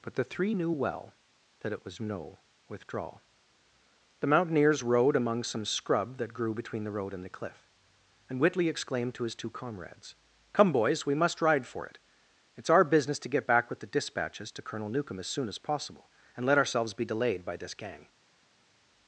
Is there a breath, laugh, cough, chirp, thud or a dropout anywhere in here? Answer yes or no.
no